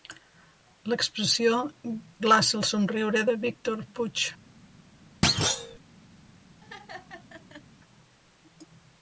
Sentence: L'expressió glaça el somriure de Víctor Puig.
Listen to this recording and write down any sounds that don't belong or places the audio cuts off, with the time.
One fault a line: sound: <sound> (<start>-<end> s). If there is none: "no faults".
sound: thud (5.2-5.8 s)
sound: laugh (6.6-7.6 s)